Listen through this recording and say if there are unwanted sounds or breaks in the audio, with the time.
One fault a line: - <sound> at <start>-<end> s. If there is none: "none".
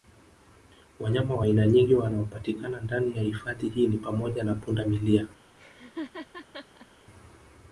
- laugh at 5.6-6.9 s